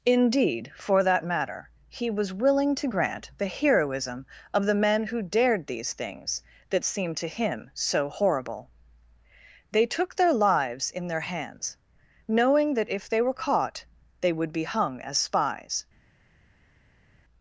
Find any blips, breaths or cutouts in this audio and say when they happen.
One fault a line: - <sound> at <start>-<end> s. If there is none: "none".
none